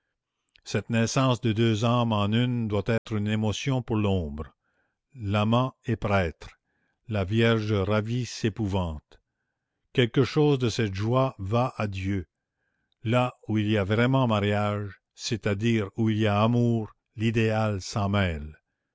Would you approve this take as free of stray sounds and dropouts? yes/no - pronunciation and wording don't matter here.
no